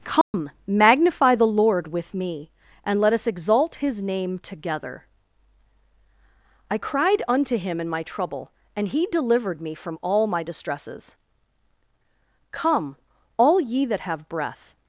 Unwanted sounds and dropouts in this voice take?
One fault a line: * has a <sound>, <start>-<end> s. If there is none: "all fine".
* has a dropout, 0.2-0.3 s